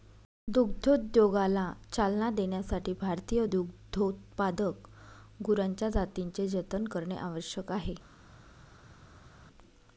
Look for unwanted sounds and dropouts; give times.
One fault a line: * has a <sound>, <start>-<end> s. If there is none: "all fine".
all fine